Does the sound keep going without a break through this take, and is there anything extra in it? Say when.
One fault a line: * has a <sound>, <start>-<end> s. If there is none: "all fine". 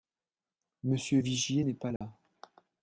* has a dropout, 2.0-2.0 s